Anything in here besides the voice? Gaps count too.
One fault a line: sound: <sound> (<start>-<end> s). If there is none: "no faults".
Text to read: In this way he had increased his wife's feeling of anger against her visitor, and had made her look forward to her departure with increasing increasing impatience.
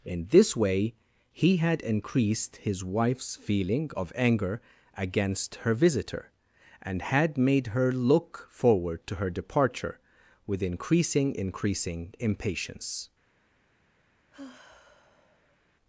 sound: sigh (14.3-15.6 s)